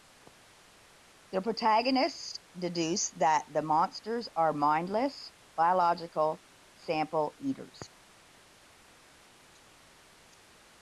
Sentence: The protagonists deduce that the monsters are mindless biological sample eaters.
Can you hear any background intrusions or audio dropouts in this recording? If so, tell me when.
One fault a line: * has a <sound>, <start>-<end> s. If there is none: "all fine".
all fine